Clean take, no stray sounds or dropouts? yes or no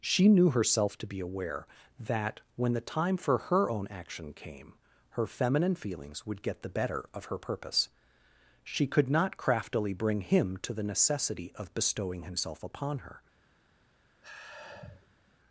no